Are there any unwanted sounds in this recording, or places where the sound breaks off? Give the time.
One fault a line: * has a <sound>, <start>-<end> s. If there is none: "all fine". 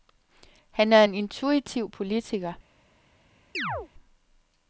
* has a chirp, 3.5-3.9 s